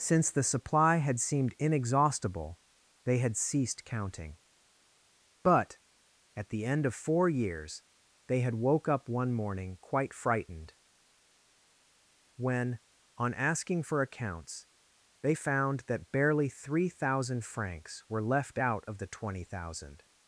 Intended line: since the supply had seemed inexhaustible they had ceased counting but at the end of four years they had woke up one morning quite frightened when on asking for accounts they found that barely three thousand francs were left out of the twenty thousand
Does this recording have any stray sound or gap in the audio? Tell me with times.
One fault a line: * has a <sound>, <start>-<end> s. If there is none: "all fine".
all fine